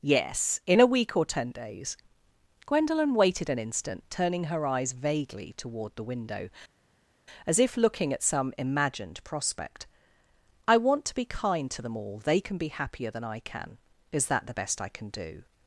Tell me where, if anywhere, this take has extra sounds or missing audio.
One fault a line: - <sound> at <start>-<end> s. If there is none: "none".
none